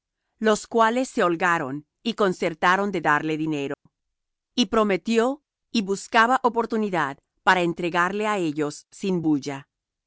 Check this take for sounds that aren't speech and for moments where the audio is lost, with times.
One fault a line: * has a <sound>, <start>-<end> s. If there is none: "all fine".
* has a dropout, 3.7-3.9 s